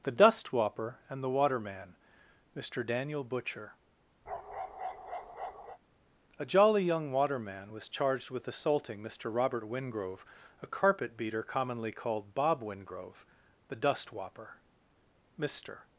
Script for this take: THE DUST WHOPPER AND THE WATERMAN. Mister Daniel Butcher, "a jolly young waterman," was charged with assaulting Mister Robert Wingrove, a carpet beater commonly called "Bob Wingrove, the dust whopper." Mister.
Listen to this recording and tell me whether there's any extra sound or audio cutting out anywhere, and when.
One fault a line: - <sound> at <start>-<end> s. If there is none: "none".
- bark at 4.3-5.8 s